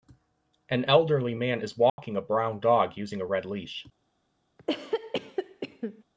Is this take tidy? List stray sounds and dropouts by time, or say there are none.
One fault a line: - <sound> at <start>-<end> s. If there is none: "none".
- dropout at 1.9-2.0 s
- cough at 4.6-6.0 s